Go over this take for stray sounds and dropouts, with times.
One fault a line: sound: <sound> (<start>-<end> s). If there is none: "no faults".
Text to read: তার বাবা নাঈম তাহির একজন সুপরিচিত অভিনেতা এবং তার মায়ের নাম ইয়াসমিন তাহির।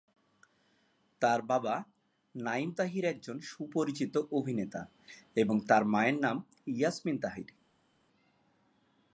no faults